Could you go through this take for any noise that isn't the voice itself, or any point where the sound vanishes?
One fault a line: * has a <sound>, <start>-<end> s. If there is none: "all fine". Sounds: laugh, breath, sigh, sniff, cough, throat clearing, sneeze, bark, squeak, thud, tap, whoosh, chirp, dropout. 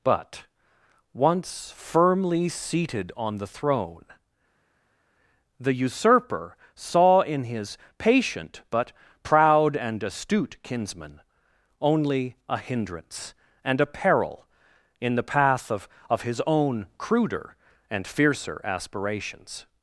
all fine